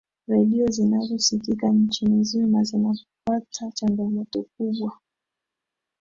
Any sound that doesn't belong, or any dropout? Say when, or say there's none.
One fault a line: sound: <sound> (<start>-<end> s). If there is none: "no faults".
no faults